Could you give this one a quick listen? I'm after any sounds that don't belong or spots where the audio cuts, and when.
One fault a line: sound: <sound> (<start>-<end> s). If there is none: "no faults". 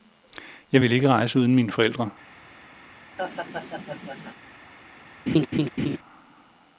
sound: laugh (3.2-4.3 s)
sound: laugh (5.3-6.0 s)